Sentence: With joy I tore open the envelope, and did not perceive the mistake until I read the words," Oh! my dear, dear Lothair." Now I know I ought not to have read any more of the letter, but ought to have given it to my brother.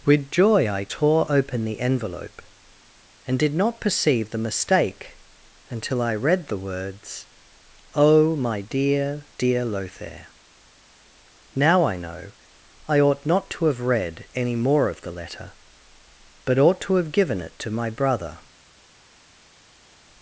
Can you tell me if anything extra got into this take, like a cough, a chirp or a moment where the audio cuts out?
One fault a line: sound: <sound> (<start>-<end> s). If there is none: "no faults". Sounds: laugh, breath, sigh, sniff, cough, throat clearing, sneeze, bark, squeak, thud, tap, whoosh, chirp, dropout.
no faults